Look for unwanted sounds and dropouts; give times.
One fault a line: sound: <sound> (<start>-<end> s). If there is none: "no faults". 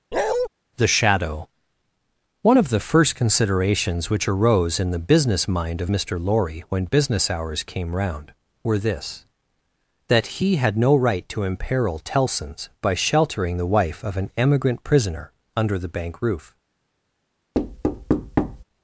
sound: bark (0.1-0.5 s)
sound: thud (17.5-18.6 s)